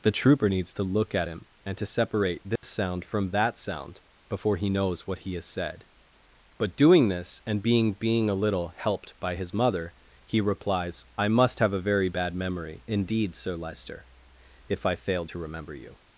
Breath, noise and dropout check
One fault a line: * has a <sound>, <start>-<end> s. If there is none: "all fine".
* has a dropout, 2.6-2.6 s